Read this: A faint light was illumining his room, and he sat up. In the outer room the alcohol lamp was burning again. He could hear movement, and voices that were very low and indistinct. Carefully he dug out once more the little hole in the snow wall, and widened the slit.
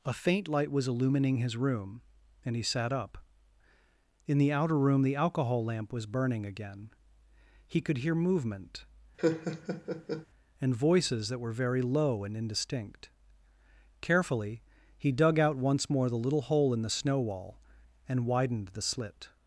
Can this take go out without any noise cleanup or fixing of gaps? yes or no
no